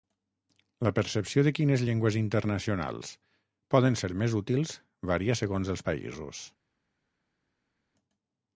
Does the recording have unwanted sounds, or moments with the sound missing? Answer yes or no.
no